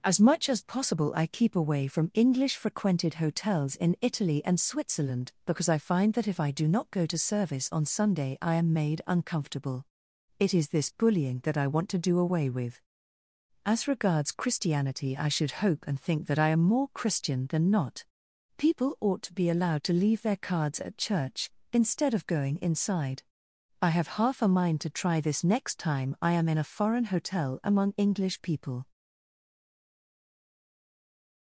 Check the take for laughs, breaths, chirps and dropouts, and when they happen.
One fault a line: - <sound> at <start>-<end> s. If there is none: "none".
none